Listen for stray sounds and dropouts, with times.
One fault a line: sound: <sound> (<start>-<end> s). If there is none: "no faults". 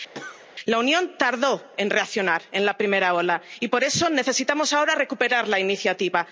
sound: cough (0.1-0.5 s)